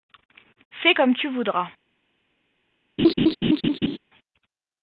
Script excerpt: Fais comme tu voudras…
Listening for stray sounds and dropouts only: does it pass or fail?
fail